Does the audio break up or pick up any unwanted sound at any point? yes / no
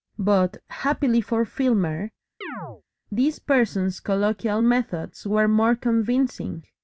yes